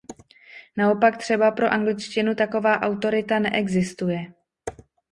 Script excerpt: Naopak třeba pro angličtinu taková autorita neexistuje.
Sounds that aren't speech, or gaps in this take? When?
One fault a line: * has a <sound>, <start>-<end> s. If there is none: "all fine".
all fine